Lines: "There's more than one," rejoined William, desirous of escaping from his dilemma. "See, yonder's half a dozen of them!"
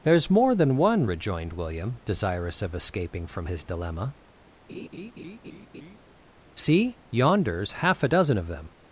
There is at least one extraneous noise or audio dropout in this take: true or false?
true